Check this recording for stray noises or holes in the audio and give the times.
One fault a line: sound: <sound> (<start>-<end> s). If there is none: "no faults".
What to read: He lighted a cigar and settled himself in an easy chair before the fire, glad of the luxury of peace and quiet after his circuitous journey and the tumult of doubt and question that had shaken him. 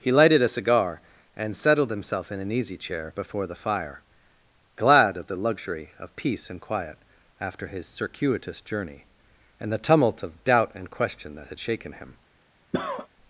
sound: cough (12.7-13.1 s)